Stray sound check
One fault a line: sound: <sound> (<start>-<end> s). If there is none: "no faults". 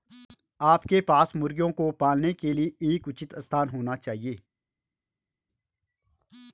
no faults